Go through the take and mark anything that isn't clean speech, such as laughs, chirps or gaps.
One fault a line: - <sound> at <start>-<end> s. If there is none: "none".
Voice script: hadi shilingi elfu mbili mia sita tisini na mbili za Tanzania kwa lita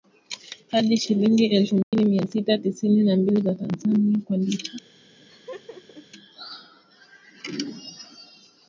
- dropout at 1.8-1.9 s
- laugh at 5.2-6.1 s